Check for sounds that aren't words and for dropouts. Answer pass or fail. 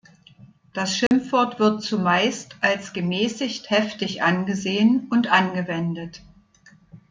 fail